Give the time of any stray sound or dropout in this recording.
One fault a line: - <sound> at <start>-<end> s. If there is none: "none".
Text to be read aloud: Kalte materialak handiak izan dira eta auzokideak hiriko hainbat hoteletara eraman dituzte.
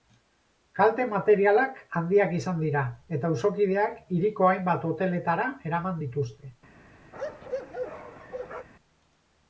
- bark at 7.1-8.7 s